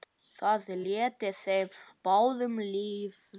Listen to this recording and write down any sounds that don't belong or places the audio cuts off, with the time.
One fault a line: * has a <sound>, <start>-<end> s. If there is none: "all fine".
all fine